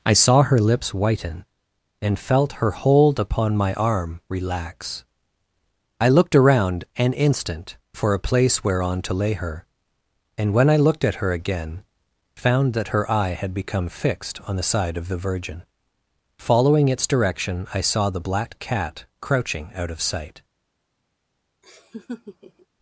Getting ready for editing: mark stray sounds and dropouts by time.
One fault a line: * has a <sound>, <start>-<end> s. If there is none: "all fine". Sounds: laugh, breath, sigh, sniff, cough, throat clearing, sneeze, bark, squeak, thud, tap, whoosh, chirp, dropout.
* has a laugh, 21.6-22.7 s